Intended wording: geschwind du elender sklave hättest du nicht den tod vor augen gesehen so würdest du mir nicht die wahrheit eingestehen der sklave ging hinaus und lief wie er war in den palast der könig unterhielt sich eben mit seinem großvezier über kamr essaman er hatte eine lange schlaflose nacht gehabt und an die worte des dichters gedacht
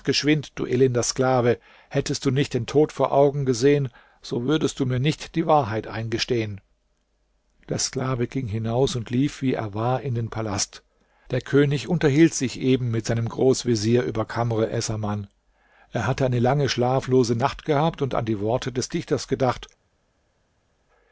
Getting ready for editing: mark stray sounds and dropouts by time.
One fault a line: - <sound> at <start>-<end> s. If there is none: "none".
none